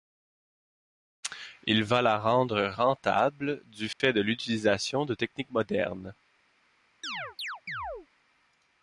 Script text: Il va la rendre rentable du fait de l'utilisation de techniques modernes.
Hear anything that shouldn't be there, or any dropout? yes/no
yes